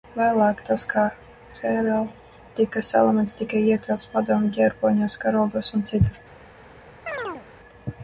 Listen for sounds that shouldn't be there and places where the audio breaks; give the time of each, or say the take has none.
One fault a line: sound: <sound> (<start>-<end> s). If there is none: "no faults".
sound: chirp (7.1-7.5 s)